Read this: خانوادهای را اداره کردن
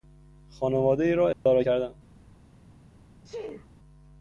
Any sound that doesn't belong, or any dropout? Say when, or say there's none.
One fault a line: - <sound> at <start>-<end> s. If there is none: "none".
- dropout at 1.3-1.5 s
- sneeze at 3.2-3.7 s